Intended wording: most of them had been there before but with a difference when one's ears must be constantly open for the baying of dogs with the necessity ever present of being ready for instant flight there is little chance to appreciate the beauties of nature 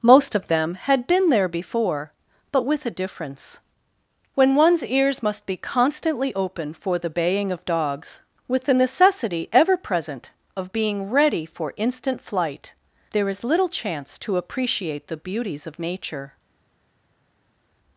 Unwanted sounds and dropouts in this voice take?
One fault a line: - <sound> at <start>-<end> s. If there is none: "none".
none